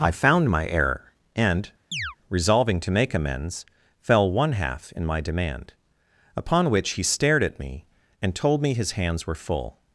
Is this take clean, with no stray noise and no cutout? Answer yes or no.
no